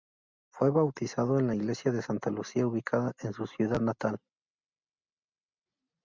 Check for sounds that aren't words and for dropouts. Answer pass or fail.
pass